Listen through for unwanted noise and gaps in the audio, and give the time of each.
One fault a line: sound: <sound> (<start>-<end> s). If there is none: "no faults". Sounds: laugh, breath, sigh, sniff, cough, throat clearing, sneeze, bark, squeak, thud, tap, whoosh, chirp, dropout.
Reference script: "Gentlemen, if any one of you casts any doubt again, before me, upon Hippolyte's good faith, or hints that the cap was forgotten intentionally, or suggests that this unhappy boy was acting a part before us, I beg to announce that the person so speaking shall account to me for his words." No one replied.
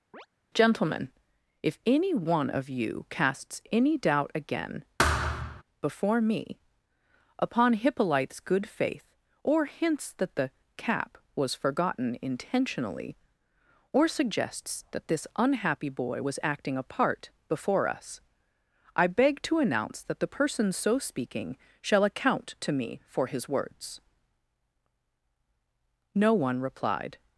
sound: chirp (0.1-0.3 s)
sound: thud (5.0-5.6 s)